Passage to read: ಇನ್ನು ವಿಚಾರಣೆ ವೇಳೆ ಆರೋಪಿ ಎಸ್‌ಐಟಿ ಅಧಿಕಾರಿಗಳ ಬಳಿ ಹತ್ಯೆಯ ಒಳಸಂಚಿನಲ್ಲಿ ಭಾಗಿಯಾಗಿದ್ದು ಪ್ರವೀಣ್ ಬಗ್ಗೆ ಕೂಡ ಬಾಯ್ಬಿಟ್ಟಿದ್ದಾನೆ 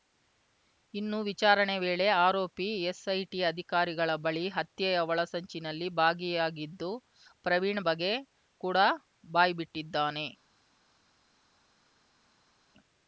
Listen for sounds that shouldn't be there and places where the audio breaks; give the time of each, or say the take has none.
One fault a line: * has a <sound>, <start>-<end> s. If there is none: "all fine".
all fine